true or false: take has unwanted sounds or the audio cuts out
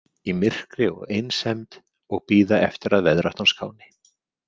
false